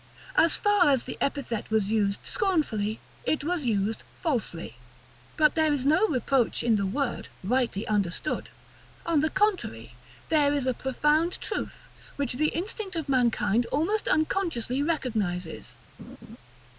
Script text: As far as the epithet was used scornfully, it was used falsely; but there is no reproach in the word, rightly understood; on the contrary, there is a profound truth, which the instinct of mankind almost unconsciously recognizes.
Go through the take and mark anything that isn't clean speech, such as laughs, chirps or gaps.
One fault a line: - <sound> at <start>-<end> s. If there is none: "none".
- laugh at 16.0-16.4 s